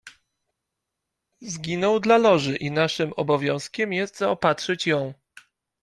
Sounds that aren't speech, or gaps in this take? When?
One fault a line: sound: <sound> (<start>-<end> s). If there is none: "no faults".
no faults